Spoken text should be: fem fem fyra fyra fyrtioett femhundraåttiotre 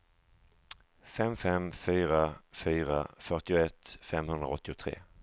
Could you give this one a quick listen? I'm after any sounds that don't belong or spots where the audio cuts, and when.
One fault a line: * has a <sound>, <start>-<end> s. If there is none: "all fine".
all fine